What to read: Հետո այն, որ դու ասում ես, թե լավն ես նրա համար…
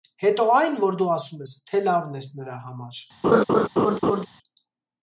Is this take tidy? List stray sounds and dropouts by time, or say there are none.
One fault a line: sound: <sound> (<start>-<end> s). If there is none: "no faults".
sound: laugh (3.2-4.3 s)